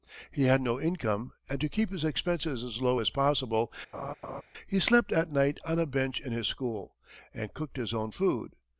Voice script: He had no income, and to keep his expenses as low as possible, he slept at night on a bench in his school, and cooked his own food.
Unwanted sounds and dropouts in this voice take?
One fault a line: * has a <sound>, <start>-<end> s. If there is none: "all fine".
* has a laugh, 3.9-4.4 s